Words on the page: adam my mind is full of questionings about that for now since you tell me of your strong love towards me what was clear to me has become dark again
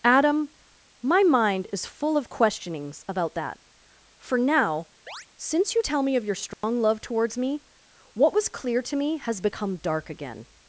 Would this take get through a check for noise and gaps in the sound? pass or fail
fail